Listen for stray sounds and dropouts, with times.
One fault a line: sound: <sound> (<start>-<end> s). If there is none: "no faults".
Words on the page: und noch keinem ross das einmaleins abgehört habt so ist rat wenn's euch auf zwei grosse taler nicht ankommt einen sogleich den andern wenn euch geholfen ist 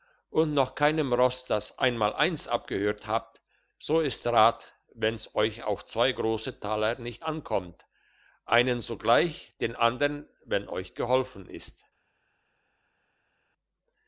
no faults